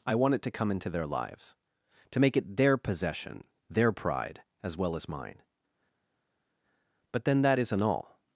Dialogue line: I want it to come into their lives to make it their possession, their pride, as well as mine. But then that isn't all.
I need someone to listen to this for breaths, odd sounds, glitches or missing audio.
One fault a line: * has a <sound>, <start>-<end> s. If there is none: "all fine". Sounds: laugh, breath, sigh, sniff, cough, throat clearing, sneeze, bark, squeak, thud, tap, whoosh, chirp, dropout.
all fine